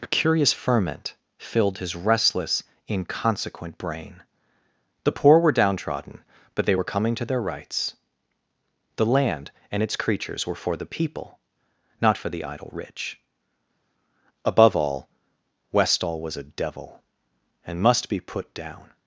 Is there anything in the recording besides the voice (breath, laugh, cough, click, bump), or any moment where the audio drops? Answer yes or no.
no